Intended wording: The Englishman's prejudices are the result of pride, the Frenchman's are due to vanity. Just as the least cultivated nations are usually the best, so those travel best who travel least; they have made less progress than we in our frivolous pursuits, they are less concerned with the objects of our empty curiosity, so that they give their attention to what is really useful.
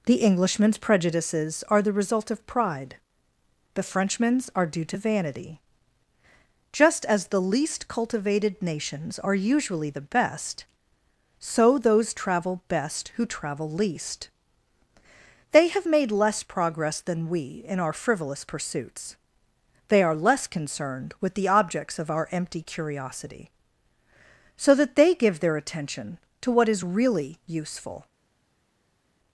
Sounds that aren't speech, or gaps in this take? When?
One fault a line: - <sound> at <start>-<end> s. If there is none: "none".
none